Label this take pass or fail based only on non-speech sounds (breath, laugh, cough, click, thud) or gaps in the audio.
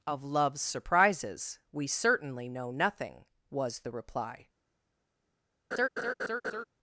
fail